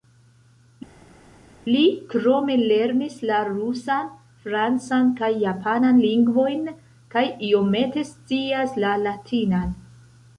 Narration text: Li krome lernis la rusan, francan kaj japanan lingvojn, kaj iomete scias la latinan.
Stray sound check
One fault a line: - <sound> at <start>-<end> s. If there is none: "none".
none